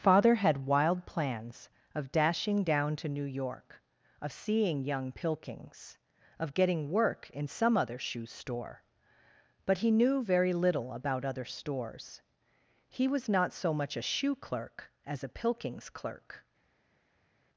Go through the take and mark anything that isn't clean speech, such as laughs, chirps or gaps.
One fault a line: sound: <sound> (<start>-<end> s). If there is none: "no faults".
no faults